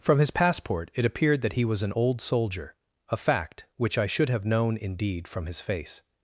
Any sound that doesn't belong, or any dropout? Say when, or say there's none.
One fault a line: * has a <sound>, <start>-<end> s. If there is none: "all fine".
all fine